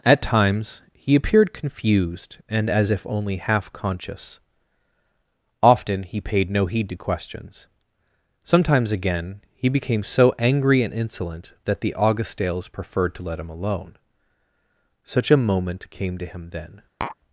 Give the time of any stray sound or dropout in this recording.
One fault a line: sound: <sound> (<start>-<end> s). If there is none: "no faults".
sound: tap (17.0-17.2 s)